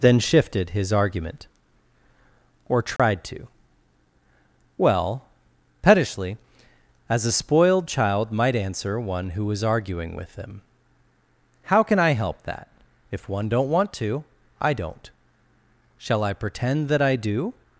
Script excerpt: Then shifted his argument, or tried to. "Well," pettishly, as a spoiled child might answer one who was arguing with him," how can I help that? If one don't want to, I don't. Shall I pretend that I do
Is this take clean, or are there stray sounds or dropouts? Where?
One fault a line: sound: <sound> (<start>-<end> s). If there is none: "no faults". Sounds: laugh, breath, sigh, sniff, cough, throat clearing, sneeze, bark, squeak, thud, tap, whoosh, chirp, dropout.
sound: dropout (3.0-3.0 s)